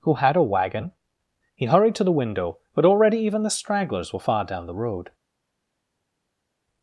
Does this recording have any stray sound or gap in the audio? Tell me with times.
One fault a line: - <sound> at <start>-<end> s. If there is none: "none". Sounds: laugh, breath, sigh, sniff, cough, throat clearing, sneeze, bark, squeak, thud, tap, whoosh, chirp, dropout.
none